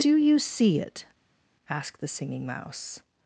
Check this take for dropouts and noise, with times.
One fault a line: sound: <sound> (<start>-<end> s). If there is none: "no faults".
no faults